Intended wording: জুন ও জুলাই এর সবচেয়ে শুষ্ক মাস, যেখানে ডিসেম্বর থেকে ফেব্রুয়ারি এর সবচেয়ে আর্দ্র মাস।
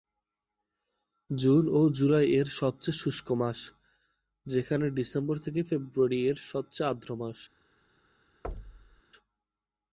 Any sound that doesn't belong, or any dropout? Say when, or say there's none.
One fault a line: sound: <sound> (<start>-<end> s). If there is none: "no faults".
sound: thud (8.4-9.0 s)